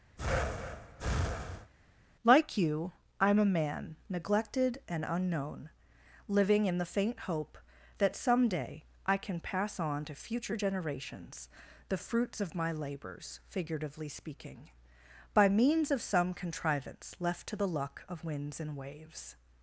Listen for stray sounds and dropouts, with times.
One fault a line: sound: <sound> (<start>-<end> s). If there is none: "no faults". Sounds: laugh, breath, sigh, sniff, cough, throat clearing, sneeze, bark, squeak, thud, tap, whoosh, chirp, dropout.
sound: breath (0.2-1.7 s)